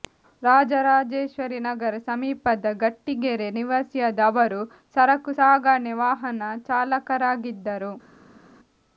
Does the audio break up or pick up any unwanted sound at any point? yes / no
no